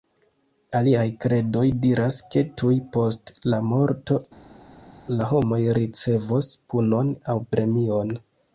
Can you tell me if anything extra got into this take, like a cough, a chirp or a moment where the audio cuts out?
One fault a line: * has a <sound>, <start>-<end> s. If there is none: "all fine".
all fine